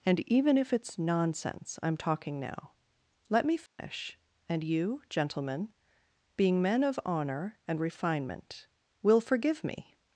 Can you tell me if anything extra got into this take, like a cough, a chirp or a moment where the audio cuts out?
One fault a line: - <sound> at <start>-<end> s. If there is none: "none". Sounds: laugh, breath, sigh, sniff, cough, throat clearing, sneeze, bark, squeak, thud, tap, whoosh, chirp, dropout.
- dropout at 3.7-3.8 s